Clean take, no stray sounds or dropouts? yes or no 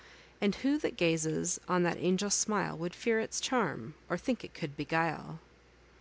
yes